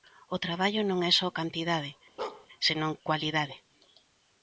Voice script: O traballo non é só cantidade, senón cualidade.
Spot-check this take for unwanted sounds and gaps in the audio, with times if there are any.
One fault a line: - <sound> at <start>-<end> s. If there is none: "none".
- bark at 2.2-2.5 s